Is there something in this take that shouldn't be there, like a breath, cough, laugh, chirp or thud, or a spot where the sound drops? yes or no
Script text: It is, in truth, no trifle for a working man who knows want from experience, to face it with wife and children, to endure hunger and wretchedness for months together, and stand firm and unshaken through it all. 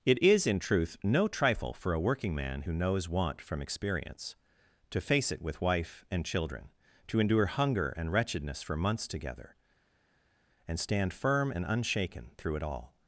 no